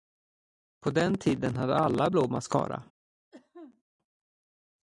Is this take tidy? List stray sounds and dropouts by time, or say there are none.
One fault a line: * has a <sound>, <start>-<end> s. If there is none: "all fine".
* has a cough, 3.3-3.8 s